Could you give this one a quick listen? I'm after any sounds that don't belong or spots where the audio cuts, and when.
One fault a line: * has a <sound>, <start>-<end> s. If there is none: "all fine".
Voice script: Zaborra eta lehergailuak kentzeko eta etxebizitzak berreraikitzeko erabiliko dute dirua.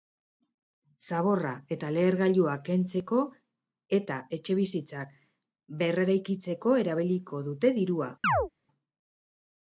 * has a chirp, 8.2-8.5 s